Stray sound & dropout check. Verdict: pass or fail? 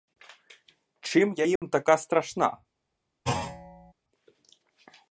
fail